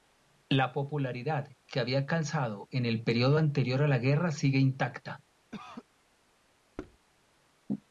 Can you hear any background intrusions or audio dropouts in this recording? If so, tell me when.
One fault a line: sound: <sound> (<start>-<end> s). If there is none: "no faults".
sound: cough (5.5-5.9 s)
sound: thud (6.8-7.0 s)